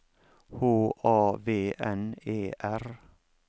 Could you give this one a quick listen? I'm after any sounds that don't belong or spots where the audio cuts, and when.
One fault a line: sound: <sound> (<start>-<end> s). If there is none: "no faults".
no faults